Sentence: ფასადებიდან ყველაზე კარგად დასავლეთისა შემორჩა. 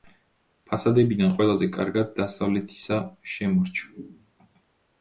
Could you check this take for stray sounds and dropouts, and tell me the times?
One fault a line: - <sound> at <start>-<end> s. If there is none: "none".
none